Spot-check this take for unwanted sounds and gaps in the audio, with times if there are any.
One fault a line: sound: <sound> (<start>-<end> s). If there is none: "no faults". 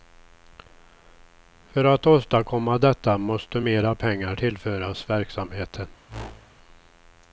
sound: whoosh (6.1-6.6 s)